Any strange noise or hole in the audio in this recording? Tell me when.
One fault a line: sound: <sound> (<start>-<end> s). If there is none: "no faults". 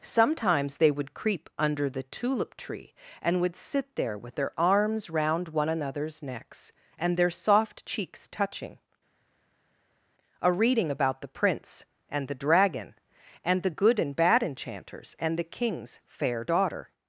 no faults